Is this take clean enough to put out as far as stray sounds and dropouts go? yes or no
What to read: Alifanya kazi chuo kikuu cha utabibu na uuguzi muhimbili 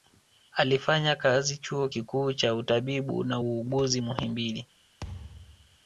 no